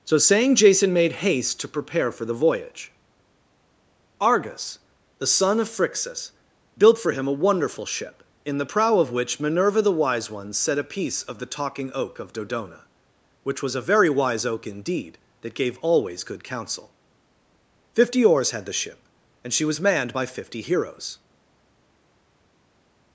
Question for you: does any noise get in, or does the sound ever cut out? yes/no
no